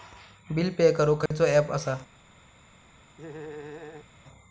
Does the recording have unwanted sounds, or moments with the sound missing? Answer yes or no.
yes